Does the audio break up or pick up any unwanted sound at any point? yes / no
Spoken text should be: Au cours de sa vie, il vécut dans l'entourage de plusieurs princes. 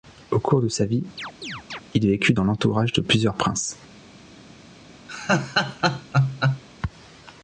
yes